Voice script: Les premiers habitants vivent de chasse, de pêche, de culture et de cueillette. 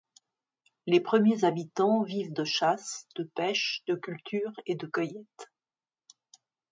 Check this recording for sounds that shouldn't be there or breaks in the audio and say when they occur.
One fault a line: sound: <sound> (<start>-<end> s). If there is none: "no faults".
no faults